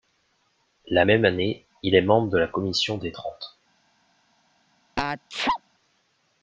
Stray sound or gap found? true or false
true